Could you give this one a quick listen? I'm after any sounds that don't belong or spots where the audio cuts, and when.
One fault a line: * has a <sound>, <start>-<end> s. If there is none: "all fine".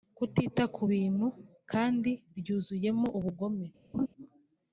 * has a laugh, 3.9-4.1 s